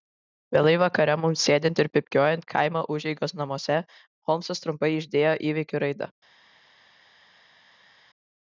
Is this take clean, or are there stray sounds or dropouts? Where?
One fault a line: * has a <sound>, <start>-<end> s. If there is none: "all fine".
all fine